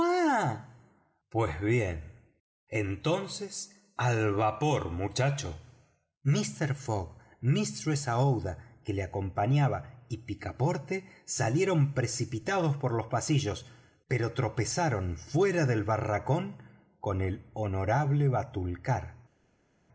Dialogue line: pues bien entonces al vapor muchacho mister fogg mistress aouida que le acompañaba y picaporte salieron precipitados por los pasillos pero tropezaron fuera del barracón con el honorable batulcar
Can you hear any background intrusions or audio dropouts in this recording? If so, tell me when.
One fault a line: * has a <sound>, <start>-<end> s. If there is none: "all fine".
all fine